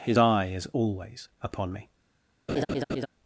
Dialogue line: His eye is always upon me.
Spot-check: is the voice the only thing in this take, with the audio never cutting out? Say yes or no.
no